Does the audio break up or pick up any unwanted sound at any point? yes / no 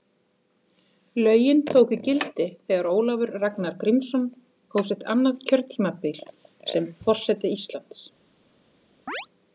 yes